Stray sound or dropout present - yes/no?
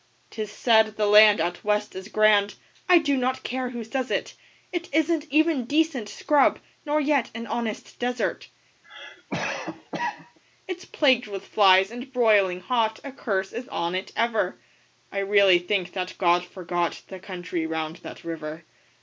yes